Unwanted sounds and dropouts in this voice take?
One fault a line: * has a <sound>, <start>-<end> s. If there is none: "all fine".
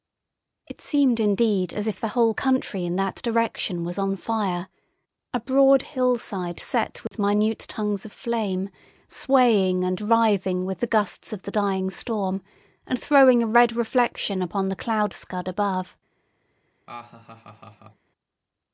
* has a dropout, 7.1-7.1 s
* has a laugh, 16.9-18.1 s